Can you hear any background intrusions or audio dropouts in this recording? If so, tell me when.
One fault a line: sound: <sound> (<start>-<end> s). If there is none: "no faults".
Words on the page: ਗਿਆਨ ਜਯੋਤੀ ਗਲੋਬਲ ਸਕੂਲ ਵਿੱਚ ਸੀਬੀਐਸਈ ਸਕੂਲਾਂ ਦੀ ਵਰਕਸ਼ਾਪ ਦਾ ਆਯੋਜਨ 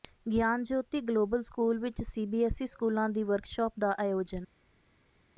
no faults